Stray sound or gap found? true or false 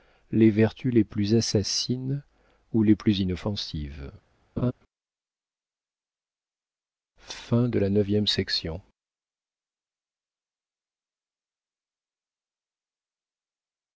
true